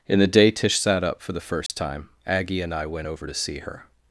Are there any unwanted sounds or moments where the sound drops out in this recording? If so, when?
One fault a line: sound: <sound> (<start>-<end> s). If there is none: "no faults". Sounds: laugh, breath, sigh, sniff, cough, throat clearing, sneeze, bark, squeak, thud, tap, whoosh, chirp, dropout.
sound: dropout (1.7-1.7 s)